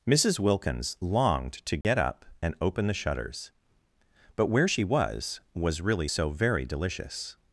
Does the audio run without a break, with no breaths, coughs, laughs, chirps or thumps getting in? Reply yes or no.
no